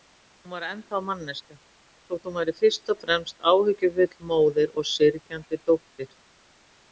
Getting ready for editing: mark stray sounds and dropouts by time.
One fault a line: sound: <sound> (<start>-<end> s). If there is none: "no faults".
no faults